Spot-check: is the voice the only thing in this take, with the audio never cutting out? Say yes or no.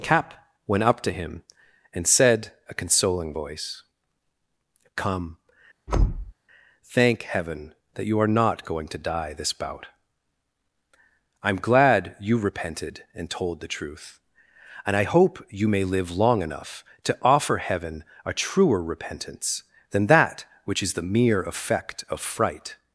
no